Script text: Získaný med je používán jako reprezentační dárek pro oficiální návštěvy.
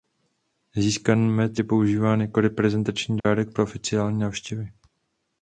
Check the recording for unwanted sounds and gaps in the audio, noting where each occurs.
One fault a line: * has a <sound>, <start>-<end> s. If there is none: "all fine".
* has a dropout, 3.2-3.2 s